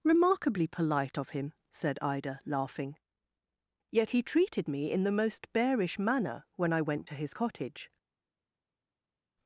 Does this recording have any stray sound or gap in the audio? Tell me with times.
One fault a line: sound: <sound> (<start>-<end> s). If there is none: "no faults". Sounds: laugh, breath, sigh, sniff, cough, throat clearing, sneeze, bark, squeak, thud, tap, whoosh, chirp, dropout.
no faults